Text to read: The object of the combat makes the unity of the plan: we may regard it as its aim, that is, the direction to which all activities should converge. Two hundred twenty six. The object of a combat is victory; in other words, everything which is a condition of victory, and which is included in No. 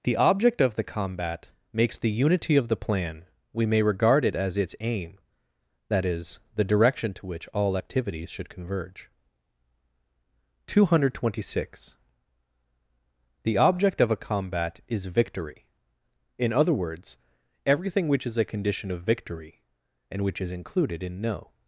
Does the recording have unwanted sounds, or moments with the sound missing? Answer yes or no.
no